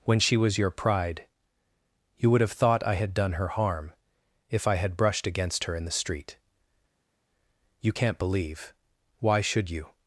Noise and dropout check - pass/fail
pass